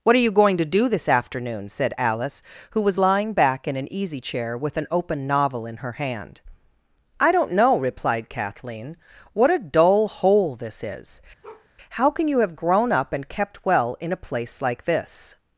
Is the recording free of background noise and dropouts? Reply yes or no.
no